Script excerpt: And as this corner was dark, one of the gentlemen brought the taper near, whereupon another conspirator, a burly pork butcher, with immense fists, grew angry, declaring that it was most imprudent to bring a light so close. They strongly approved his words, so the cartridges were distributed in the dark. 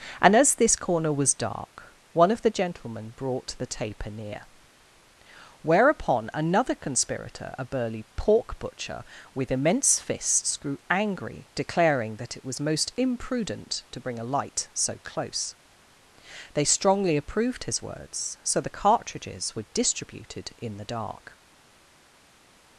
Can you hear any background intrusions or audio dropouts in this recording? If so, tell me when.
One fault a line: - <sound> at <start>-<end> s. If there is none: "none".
none